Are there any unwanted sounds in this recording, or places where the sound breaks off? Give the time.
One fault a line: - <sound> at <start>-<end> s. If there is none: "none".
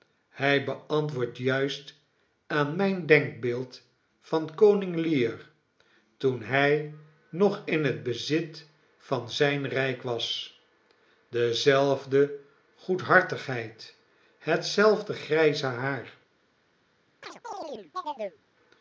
- chirp at 17.2-18.4 s